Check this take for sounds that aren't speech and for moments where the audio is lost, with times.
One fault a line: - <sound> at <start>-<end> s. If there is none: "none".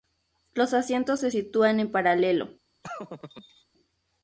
- laugh at 2.8-3.6 s